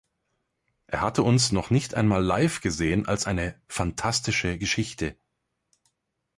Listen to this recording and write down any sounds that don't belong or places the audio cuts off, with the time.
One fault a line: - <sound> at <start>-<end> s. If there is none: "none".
none